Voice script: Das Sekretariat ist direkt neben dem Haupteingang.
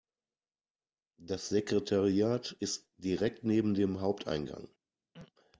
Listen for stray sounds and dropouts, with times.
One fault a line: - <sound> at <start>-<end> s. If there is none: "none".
- throat clearing at 5.1-5.3 s